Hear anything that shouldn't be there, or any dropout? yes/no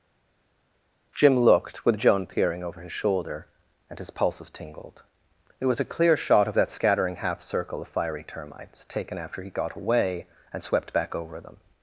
no